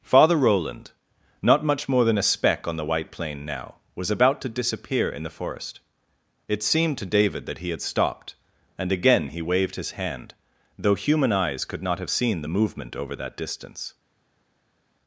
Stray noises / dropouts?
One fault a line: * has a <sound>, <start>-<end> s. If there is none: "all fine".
all fine